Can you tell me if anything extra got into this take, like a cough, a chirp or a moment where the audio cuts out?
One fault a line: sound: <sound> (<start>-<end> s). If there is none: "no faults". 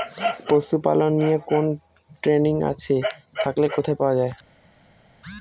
no faults